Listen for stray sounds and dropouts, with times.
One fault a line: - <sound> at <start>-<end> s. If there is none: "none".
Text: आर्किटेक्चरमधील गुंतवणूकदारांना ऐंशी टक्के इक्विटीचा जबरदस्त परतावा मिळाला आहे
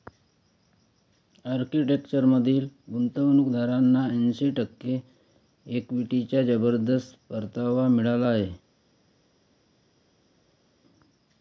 none